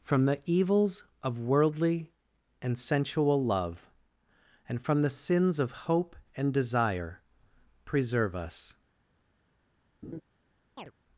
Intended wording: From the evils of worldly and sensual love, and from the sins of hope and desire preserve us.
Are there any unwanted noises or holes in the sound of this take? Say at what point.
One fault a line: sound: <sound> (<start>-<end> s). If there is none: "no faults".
sound: laugh (10.0-10.2 s)
sound: chirp (10.8-10.9 s)